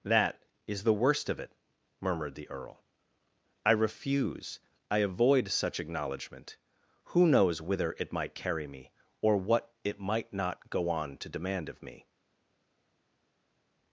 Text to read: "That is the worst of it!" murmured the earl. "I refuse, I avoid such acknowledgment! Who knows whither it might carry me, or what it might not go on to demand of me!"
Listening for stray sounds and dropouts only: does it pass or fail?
pass